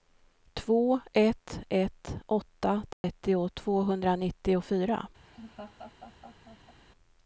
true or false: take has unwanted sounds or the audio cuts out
true